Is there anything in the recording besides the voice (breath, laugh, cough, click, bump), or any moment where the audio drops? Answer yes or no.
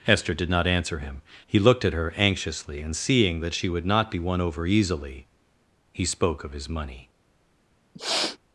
yes